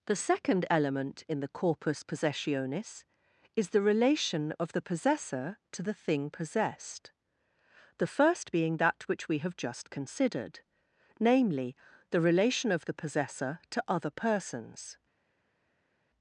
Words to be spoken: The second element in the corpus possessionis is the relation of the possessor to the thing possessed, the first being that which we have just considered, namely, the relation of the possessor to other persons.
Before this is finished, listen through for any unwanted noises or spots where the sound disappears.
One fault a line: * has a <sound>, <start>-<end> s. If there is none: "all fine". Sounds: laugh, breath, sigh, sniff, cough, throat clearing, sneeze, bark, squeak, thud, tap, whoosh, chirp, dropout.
all fine